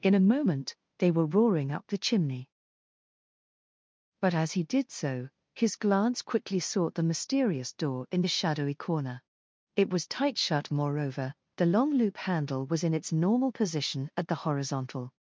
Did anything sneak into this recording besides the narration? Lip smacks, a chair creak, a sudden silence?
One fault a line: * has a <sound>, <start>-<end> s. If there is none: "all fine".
all fine